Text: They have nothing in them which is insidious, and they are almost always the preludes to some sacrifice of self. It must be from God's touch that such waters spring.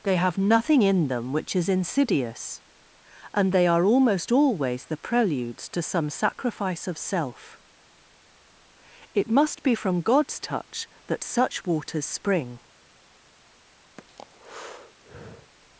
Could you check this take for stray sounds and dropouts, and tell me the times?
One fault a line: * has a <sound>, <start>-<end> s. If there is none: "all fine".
* has a breath, 14.0-15.5 s